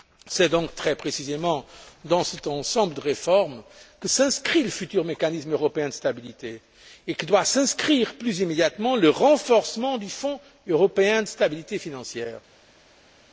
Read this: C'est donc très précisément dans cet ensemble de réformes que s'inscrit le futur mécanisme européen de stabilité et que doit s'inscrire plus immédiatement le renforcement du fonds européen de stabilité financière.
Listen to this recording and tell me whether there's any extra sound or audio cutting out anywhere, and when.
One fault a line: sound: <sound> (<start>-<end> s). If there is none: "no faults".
no faults